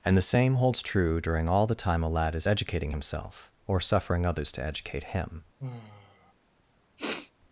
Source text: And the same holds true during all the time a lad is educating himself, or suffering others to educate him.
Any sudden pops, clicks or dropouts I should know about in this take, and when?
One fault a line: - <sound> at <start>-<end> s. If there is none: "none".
- sigh at 5.6-6.3 s
- sniff at 7.0-7.3 s